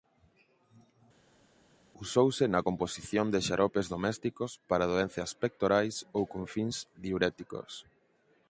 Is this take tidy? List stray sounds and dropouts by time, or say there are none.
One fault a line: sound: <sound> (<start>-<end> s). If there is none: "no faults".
no faults